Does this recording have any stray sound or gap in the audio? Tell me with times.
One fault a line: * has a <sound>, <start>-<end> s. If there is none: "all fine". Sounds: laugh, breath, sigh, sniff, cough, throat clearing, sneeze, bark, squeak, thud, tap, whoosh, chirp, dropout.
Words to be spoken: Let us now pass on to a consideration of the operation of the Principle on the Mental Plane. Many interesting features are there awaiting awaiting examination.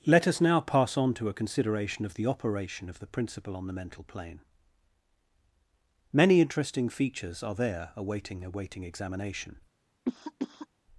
* has a cough, 10.1-10.7 s